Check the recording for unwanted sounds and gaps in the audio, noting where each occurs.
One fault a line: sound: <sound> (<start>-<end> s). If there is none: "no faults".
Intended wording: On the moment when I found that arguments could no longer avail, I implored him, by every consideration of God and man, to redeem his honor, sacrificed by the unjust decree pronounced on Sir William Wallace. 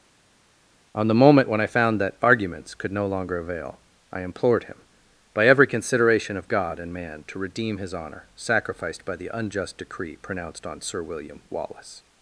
no faults